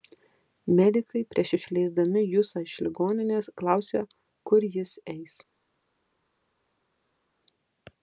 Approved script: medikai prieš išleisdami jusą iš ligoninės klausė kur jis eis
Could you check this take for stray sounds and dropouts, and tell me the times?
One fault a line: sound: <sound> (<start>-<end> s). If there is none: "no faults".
no faults